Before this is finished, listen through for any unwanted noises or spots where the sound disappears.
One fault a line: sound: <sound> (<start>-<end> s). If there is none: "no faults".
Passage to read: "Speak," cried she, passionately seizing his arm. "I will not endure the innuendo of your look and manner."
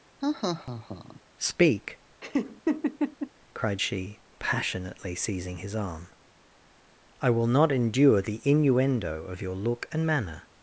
sound: laugh (0.2-1.2 s)
sound: laugh (2.2-3.3 s)